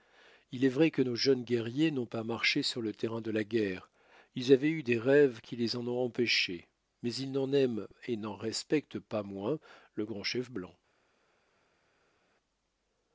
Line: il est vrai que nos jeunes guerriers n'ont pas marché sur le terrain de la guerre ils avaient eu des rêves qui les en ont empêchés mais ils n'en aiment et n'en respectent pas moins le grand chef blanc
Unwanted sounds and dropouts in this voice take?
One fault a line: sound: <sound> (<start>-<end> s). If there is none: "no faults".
no faults